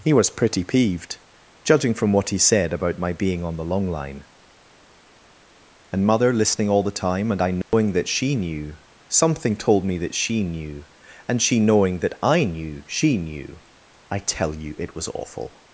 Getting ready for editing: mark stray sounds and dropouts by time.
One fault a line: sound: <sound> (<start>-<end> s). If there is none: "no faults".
sound: dropout (7.6-7.7 s)